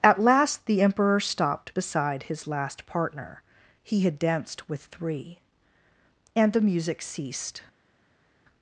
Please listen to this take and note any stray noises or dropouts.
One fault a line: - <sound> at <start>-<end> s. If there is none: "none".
none